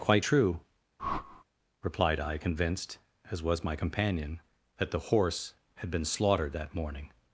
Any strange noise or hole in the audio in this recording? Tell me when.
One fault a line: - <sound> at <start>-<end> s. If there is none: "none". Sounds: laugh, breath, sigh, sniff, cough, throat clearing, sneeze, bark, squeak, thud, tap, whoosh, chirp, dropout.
- whoosh at 1.0-1.4 s